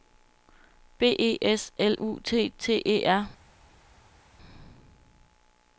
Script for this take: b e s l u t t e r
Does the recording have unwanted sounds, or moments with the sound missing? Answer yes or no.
no